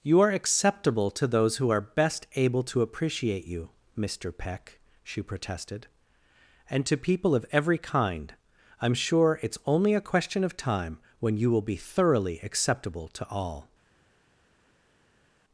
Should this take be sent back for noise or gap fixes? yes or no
no